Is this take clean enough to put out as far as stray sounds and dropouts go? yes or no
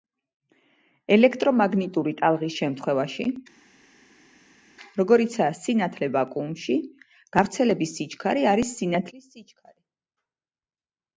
yes